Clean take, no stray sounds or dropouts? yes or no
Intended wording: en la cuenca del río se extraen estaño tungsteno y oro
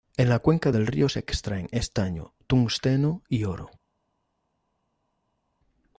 yes